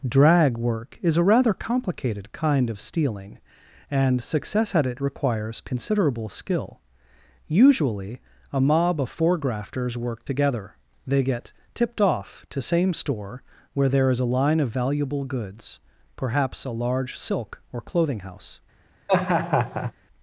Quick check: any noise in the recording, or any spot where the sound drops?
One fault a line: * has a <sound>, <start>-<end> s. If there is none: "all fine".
* has a laugh, 19.1-19.9 s